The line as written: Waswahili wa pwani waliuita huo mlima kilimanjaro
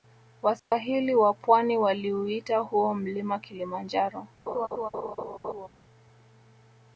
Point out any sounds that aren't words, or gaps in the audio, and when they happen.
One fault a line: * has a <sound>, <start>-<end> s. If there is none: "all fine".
* has a dropout, 0.6-0.7 s
* has a laugh, 4.5-5.7 s